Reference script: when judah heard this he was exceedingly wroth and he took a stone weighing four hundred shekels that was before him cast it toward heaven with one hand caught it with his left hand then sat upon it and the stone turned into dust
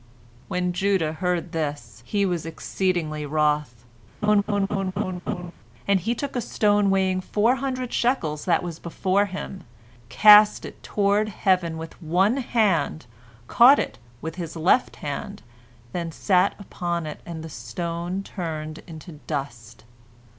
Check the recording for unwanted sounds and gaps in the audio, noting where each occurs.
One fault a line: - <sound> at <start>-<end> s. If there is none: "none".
- laugh at 4.2-5.5 s